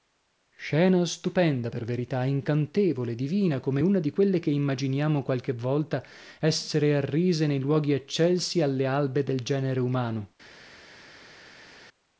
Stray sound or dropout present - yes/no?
no